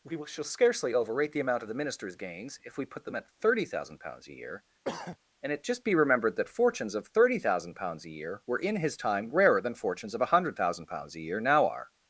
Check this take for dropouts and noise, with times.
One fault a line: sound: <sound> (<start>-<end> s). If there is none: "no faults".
sound: throat clearing (4.8-5.2 s)